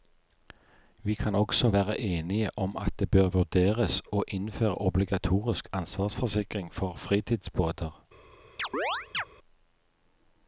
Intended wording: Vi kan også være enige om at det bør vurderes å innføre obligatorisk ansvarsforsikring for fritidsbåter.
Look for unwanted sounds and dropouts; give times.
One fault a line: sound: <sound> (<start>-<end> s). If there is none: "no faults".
sound: chirp (8.6-9.2 s)